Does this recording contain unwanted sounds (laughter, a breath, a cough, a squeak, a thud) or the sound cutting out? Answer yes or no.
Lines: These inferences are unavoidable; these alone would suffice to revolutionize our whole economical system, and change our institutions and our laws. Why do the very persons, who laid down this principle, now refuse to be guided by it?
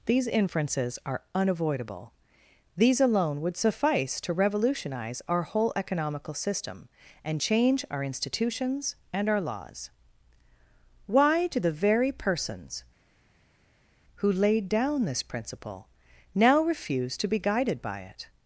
no